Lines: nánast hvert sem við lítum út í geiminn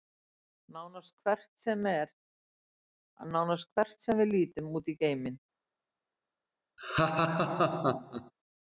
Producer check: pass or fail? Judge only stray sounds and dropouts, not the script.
fail